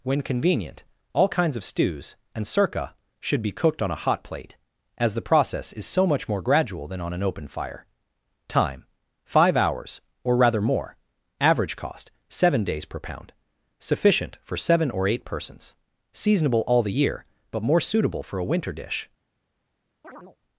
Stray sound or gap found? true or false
true